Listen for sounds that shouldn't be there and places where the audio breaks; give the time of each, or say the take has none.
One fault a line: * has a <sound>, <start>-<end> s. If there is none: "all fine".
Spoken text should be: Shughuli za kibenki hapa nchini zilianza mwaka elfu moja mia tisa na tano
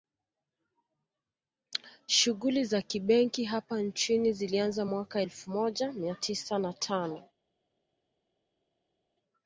all fine